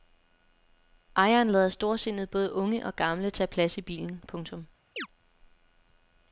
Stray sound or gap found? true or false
true